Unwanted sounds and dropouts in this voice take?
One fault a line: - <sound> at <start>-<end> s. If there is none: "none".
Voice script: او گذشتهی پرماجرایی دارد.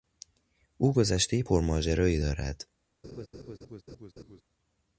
- laugh at 3.0-4.4 s